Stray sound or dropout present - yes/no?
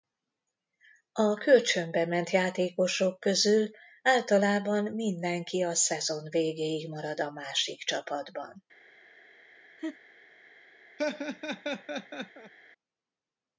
yes